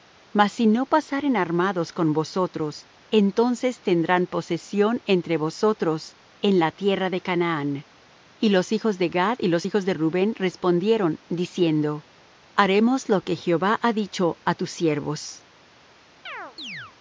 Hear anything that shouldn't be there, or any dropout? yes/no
yes